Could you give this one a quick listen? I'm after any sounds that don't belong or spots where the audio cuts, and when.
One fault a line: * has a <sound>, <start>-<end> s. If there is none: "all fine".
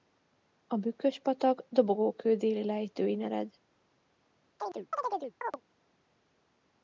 * has a chirp, 4.6-5.6 s